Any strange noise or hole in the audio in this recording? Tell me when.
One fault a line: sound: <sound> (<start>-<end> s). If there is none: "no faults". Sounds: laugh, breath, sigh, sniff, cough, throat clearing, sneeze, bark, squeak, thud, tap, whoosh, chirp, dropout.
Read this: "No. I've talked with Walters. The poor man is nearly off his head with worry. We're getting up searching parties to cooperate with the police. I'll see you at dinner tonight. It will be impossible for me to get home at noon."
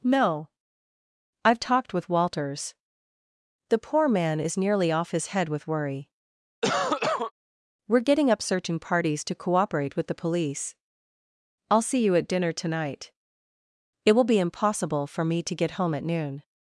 sound: cough (6.6-7.3 s)